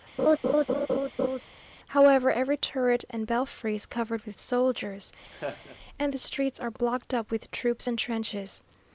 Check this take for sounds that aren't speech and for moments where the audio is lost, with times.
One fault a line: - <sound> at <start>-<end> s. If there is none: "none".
- laugh at 0.2-1.4 s
- laugh at 5.3-5.8 s